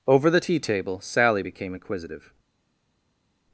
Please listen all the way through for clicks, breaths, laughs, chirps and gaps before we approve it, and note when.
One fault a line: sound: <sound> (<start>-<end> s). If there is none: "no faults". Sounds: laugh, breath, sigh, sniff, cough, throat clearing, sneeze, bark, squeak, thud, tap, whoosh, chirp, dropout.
no faults